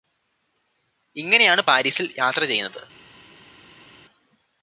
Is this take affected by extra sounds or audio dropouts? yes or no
no